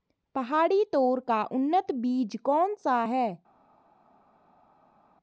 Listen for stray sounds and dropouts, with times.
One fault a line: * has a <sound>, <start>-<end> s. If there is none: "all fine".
all fine